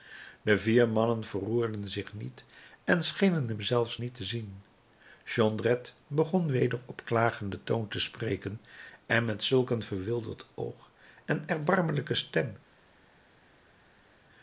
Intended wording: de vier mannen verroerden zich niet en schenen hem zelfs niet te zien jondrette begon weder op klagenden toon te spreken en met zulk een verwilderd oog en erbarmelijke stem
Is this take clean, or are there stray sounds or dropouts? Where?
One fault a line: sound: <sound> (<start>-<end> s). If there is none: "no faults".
no faults